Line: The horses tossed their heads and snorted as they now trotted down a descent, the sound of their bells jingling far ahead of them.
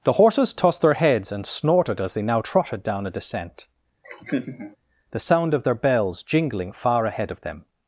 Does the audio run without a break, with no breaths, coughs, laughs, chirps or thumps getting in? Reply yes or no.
no